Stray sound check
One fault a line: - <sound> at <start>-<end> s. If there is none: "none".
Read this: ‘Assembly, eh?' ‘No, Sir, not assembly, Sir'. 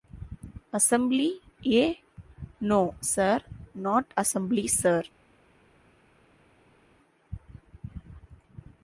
none